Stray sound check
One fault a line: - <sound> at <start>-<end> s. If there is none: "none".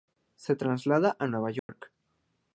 - dropout at 1.6-1.7 s